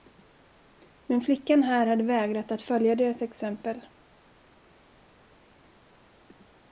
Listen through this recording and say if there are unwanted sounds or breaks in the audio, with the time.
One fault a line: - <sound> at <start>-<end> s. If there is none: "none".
none